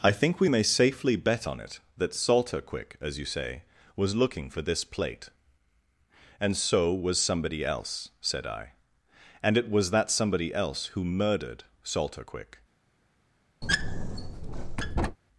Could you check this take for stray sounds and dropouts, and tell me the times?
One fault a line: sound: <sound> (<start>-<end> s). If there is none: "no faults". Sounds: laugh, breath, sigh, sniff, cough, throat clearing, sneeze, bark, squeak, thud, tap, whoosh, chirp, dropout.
sound: squeak (13.6-15.2 s)